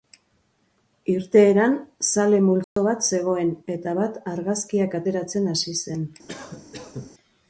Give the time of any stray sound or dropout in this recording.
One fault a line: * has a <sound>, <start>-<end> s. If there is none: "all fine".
* has a dropout, 2.6-2.8 s
* has a cough, 6.3-7.1 s